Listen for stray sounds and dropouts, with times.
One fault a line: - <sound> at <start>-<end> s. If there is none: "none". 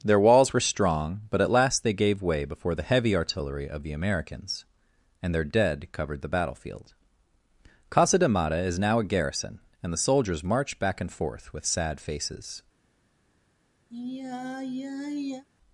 - sigh at 13.9-15.5 s